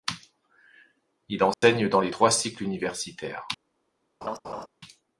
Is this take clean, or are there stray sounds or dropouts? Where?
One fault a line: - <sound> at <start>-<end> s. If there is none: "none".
- dropout at 1.5-1.6 s
- laugh at 4.2-4.7 s